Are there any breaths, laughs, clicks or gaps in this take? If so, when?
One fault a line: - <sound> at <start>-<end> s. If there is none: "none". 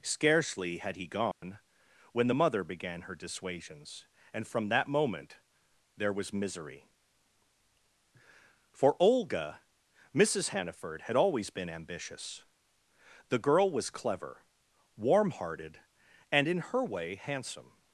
- dropout at 1.3-1.4 s